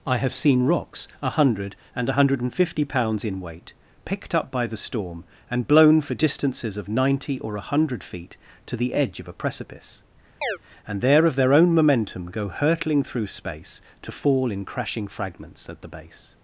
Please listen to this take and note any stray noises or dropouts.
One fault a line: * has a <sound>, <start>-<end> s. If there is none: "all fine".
* has a chirp, 10.4-10.6 s